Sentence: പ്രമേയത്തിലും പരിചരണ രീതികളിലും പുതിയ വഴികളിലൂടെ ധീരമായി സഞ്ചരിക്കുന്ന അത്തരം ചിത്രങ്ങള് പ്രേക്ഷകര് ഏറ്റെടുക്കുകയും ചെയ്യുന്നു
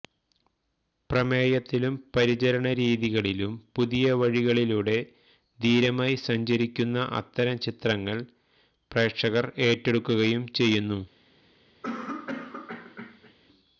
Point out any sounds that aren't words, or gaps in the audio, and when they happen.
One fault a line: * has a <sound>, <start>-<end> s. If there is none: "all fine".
* has a cough, 11.8-13.3 s